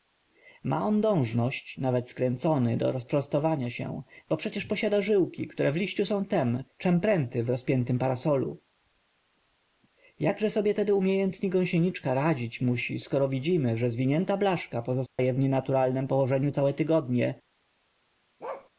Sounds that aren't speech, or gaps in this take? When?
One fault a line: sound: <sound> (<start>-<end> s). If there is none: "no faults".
sound: dropout (15.1-15.2 s)
sound: bark (18.4-18.7 s)